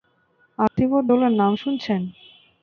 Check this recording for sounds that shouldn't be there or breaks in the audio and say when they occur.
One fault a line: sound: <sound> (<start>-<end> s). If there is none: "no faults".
sound: dropout (0.7-0.8 s)